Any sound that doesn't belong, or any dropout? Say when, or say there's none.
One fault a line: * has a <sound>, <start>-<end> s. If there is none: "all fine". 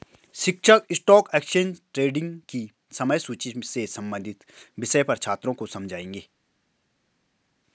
all fine